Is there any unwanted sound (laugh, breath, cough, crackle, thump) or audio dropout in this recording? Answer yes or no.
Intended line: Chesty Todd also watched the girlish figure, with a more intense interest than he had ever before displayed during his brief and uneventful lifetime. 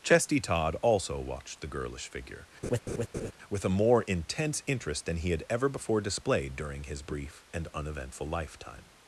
yes